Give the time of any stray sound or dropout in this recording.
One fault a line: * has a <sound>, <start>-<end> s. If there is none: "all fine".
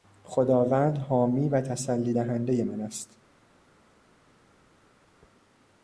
all fine